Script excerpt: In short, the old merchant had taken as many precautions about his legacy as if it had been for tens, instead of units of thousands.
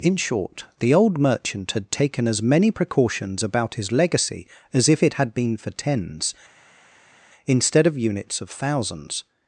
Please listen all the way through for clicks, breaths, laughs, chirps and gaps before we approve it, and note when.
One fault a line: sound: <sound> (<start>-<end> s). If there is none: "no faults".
no faults